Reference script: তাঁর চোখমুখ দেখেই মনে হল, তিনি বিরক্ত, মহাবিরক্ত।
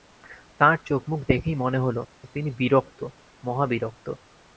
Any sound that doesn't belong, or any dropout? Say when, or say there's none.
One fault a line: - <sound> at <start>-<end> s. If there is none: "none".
none